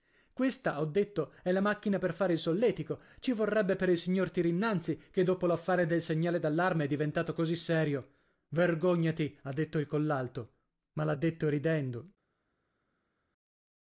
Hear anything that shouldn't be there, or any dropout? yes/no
no